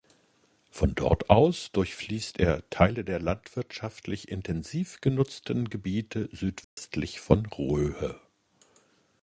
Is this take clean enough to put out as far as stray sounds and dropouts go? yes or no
no